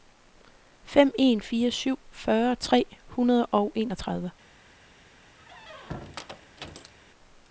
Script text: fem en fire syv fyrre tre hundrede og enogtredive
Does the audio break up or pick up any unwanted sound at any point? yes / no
yes